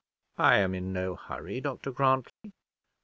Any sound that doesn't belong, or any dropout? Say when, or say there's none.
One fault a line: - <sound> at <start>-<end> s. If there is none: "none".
- dropout at 2.3-2.4 s